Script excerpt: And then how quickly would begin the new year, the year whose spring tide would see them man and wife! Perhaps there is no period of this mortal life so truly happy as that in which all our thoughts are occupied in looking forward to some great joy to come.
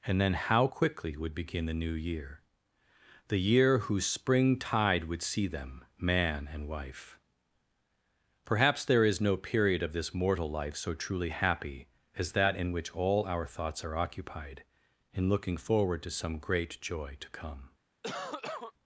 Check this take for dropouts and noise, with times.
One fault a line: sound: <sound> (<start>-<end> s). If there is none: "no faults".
sound: cough (18.0-18.7 s)